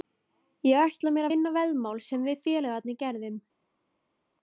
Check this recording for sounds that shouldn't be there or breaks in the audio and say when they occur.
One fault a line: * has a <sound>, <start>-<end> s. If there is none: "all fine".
all fine